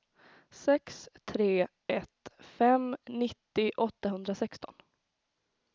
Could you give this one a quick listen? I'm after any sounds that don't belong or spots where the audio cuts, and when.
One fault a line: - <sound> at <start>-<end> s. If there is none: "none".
none